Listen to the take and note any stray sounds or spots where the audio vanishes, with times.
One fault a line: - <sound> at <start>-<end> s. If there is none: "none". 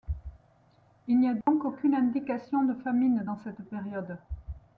- dropout at 1.4-1.5 s